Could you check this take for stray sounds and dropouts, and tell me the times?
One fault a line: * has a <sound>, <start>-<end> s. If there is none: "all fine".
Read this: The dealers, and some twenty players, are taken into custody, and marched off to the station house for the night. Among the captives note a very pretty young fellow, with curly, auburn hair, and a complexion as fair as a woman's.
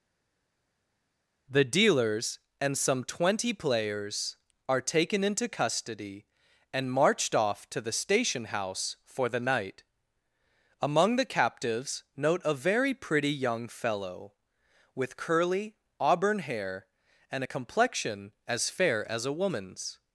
all fine